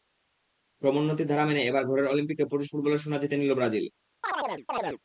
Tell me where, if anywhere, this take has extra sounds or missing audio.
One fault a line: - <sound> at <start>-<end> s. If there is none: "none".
- chirp at 4.2-5.0 s